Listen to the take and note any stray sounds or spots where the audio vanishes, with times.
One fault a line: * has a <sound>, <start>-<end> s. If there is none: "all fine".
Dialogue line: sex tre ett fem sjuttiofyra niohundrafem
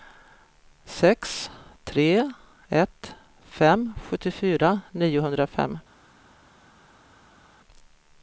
all fine